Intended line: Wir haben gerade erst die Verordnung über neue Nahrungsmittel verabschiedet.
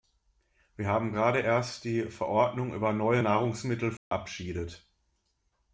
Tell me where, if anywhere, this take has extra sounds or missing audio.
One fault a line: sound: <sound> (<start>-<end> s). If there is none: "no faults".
sound: dropout (4.0-4.1 s)